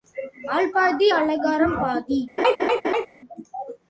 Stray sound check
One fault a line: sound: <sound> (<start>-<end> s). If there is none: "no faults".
sound: laugh (2.4-3.1 s)